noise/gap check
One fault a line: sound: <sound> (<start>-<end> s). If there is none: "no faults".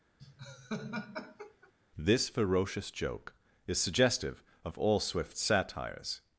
sound: laugh (0.2-1.7 s)